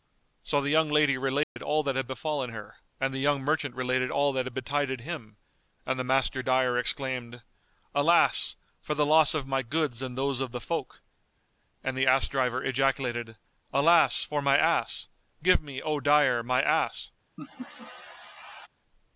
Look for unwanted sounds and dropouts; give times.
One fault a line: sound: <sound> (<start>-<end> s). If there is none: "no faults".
sound: dropout (1.4-1.6 s)
sound: laugh (17.4-18.7 s)